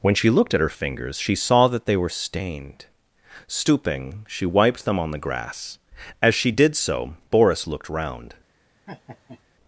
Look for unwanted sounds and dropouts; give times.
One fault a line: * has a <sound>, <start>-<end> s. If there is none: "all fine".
* has a laugh, 8.9-9.4 s